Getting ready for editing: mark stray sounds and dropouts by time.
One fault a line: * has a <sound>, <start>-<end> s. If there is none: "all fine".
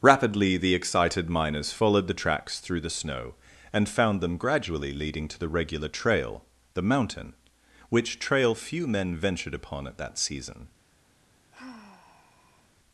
* has a sigh, 11.5-12.7 s